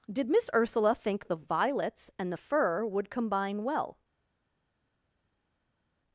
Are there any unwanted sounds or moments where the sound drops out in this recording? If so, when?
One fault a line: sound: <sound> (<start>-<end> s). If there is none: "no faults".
no faults